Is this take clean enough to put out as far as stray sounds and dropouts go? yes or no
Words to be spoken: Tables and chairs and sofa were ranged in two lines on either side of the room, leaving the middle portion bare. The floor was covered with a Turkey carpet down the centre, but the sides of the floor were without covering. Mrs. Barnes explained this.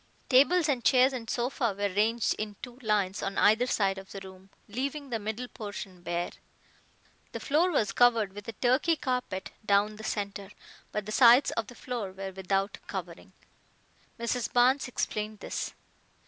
yes